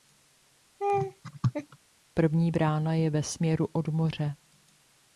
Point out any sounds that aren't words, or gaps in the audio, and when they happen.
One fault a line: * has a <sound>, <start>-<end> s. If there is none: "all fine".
* has a laugh, 0.8-1.8 s